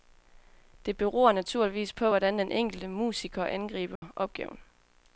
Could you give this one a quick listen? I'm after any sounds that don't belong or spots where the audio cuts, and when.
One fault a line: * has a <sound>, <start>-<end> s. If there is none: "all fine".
* has a dropout, 4.0-4.0 s